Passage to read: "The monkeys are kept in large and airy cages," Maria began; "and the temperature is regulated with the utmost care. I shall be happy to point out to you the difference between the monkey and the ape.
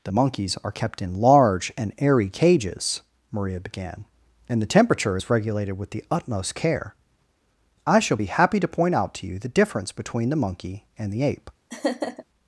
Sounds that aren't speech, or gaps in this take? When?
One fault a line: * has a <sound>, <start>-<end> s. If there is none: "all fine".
* has a laugh, 11.7-12.2 s